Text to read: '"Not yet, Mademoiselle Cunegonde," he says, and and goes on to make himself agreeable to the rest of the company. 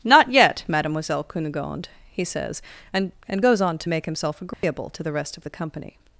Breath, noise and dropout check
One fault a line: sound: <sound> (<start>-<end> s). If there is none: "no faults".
sound: dropout (4.5-4.6 s)